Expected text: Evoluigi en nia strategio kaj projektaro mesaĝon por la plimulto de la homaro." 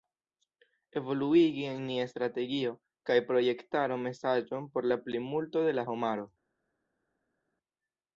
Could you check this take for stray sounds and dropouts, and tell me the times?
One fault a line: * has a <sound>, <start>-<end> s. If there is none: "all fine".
all fine